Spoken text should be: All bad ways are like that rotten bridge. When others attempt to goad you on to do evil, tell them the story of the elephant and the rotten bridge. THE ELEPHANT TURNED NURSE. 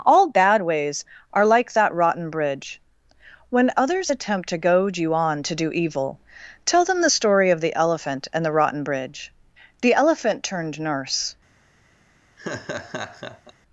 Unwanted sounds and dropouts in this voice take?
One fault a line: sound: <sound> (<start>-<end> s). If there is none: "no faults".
sound: laugh (12.4-13.5 s)